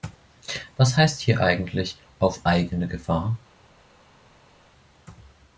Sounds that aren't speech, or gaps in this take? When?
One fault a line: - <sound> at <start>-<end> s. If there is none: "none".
none